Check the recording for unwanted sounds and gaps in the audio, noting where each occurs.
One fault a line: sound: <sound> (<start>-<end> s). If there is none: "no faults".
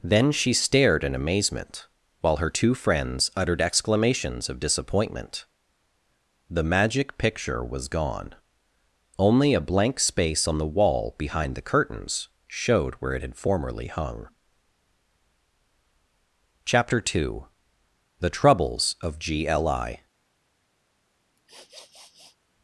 sound: sniff (21.4-22.4 s)